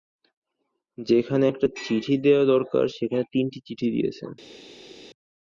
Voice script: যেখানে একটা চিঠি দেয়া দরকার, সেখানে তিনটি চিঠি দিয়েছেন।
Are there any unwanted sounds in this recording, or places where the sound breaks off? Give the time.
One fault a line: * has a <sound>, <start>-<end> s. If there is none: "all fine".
all fine